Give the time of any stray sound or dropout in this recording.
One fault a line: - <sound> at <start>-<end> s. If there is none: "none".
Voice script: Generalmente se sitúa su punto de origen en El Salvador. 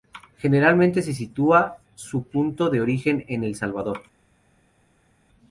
none